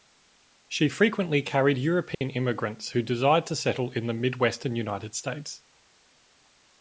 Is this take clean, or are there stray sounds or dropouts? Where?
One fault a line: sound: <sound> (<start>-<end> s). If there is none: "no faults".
sound: dropout (2.1-2.2 s)